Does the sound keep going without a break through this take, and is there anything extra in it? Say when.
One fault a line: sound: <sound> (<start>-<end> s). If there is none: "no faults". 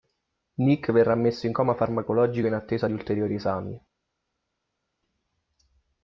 no faults